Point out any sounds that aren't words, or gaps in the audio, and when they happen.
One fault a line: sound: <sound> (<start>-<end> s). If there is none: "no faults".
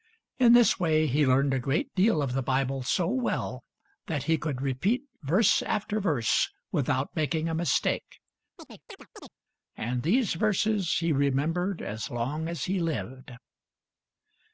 sound: chirp (8.6-9.3 s)